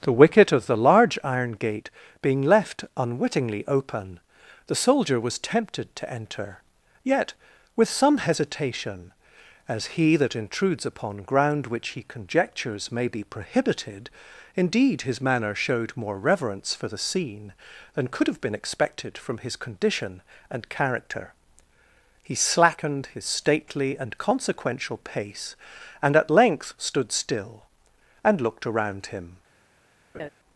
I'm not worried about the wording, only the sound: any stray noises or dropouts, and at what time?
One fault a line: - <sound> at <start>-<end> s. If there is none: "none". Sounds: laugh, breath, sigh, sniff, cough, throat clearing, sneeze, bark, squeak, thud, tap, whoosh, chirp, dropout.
- laugh at 30.1-30.3 s